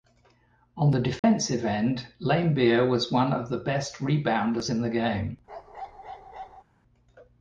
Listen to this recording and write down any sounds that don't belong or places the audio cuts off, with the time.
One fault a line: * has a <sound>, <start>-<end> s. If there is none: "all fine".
* has a dropout, 1.2-1.2 s
* has a bark, 5.5-6.6 s